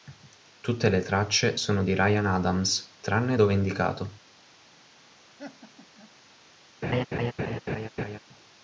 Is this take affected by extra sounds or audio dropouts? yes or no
yes